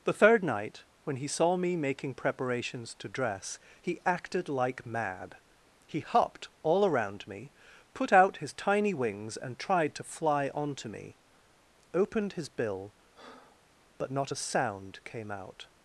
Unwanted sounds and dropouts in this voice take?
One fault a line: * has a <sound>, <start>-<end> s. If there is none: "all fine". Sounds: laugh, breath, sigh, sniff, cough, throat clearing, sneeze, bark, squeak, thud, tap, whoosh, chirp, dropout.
* has a breath, 13.1-13.7 s